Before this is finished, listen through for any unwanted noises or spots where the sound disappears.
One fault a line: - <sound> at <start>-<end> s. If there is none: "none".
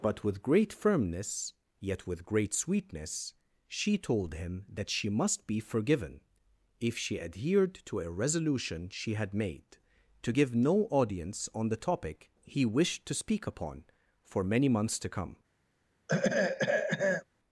- throat clearing at 16.1-17.2 s